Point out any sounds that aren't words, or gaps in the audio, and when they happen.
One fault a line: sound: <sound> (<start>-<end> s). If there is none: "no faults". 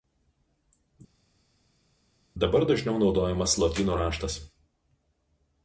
no faults